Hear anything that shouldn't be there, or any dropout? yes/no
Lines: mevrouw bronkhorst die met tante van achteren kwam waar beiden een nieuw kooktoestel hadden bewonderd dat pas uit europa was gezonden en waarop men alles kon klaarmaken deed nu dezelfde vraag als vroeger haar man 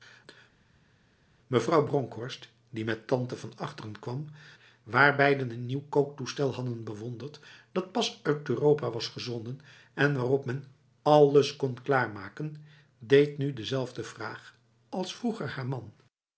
no